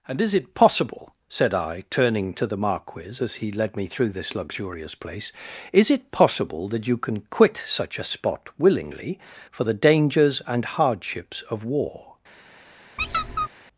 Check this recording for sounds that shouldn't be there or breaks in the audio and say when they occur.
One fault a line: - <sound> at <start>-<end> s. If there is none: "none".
- squeak at 13.0-13.5 s